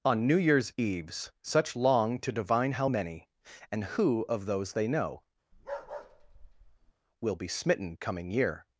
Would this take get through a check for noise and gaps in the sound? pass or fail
fail